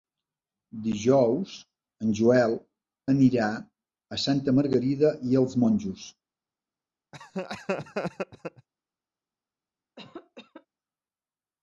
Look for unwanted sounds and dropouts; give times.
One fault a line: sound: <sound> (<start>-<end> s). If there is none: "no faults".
sound: laugh (7.1-8.7 s)
sound: cough (10.0-10.7 s)